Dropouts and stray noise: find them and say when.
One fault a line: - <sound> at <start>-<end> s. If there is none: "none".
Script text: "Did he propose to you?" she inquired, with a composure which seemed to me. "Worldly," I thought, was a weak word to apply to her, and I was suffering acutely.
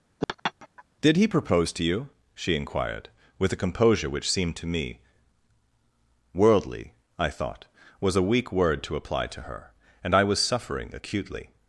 - laugh at 0.2-0.8 s